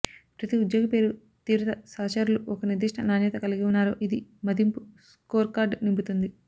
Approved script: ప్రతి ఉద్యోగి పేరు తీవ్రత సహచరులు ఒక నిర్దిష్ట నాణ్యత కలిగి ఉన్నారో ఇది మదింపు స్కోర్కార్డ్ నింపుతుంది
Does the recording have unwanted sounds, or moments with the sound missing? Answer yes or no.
no